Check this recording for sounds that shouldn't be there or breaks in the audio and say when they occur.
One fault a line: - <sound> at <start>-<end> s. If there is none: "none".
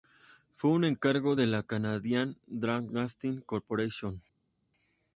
none